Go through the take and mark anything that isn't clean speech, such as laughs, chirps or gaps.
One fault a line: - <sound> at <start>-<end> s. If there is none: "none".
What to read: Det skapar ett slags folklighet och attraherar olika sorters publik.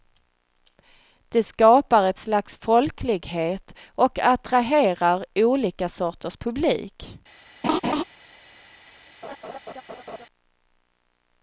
- laugh at 7.6-8.0 s
- laugh at 9.2-10.3 s